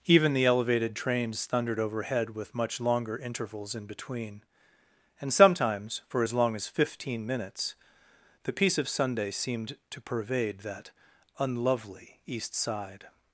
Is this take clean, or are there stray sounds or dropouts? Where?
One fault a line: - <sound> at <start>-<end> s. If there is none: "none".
none